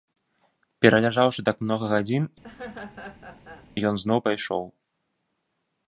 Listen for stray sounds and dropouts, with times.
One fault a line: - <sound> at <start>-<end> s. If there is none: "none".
- laugh at 2.4-3.7 s